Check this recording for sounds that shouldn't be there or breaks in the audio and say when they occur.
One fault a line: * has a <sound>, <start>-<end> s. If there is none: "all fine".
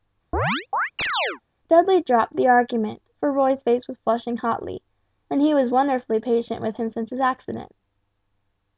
* has a chirp, 0.3-1.4 s